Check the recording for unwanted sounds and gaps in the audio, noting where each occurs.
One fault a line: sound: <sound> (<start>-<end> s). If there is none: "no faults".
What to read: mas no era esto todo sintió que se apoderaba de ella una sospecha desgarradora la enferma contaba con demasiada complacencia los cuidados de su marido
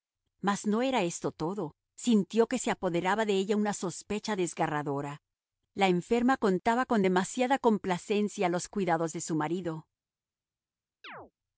sound: chirp (11.0-11.3 s)